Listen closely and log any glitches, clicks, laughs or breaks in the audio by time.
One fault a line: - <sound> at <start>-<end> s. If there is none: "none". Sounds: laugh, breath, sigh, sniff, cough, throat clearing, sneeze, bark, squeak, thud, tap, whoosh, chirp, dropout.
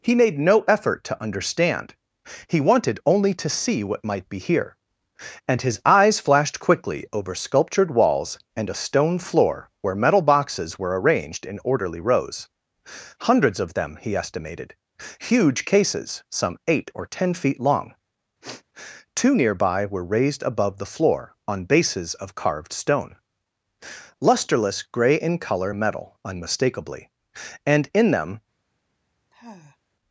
- sniff at 18.4-18.6 s
- sigh at 29.3-29.8 s